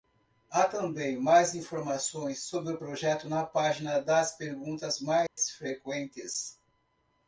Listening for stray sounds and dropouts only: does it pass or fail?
fail